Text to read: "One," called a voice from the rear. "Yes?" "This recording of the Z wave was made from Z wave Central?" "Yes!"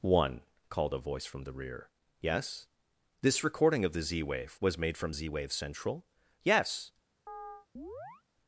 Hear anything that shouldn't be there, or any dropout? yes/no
yes